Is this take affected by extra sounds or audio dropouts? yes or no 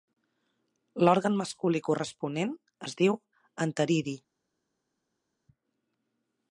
no